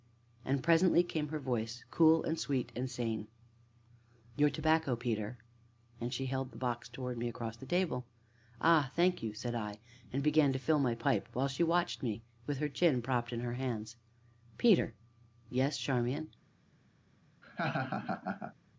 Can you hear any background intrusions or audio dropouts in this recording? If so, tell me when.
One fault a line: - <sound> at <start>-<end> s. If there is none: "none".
- laugh at 17.4-18.5 s